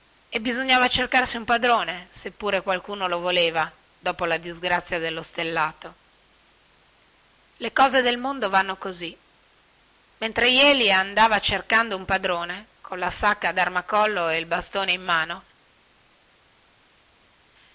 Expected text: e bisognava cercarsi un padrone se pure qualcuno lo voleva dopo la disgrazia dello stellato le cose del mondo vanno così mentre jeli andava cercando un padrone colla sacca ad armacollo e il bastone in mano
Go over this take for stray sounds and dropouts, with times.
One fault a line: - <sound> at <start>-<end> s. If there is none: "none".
none